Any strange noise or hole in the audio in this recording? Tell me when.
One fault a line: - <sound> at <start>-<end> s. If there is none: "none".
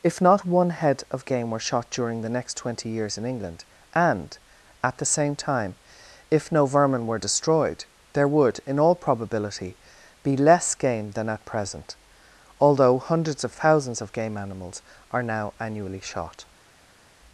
none